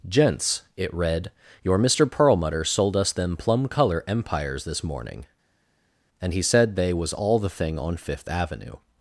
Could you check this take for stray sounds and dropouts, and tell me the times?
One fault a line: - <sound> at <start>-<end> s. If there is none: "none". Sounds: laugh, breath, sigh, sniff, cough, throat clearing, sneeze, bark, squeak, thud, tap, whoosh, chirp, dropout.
none